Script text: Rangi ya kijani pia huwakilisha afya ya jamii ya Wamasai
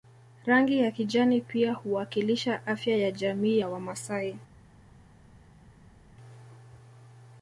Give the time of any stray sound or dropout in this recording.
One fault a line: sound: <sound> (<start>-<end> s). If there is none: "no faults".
no faults